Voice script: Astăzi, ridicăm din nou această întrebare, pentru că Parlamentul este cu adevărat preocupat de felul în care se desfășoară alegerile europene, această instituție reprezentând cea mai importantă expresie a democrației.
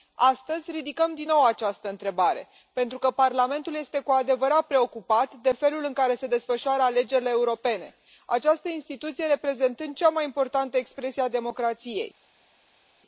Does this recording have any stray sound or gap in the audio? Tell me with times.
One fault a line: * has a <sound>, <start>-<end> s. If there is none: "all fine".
all fine